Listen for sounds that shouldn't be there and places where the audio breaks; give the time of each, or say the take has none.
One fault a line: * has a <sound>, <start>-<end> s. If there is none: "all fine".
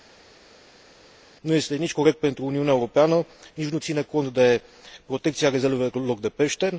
all fine